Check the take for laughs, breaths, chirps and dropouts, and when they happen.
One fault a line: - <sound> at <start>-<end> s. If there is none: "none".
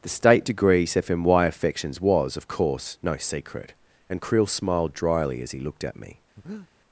- breath at 6.4-6.7 s